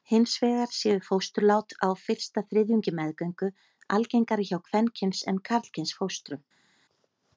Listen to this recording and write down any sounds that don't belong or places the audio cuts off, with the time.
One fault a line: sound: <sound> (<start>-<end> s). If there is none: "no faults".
no faults